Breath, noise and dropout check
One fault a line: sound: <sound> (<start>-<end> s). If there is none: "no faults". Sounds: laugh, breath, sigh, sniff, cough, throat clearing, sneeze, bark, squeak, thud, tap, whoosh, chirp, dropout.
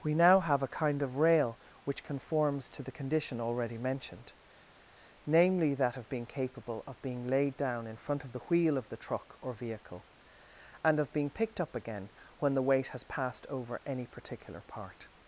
no faults